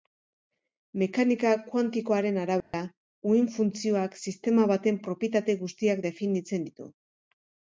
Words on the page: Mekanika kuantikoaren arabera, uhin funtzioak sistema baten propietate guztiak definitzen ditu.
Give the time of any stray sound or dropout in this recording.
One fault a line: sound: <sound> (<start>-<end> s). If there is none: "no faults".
sound: dropout (2.6-2.7 s)